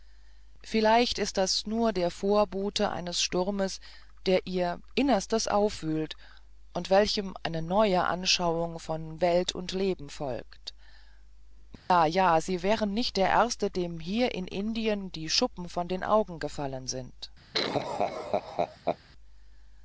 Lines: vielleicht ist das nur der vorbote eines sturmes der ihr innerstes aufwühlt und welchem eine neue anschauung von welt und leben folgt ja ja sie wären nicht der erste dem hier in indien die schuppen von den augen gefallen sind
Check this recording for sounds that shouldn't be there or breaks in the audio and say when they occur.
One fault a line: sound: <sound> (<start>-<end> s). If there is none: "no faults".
sound: dropout (11.8-11.9 s)
sound: laugh (17.5-19.0 s)